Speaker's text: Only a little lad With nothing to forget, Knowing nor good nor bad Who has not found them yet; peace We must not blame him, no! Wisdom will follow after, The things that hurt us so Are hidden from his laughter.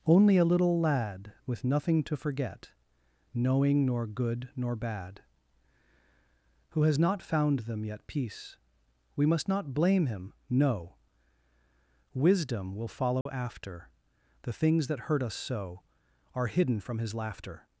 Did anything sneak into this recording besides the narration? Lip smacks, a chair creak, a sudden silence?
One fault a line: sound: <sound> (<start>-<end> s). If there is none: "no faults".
sound: dropout (13.2-13.3 s)